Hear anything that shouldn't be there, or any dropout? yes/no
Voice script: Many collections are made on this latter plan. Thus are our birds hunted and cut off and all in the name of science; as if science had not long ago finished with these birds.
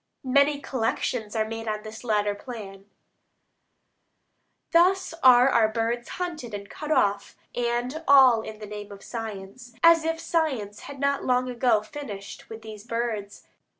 no